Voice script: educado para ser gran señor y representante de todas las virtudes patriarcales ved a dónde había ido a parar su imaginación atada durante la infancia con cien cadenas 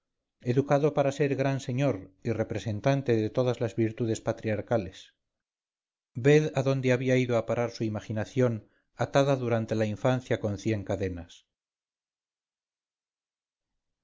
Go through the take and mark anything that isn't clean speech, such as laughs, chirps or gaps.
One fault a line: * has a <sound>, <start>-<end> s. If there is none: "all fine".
all fine